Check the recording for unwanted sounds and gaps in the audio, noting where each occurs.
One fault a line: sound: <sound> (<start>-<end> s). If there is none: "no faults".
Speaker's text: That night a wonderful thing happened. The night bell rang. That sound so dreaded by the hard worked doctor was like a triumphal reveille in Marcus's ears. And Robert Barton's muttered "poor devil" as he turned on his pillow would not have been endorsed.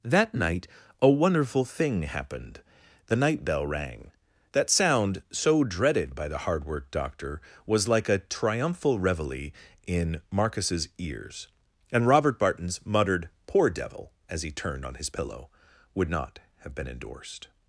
no faults